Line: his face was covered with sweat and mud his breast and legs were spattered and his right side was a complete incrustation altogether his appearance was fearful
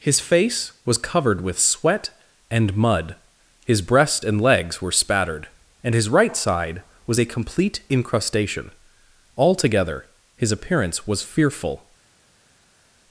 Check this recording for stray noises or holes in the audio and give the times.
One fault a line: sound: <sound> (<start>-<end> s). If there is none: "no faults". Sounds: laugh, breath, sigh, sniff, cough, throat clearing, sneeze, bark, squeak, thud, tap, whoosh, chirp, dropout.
no faults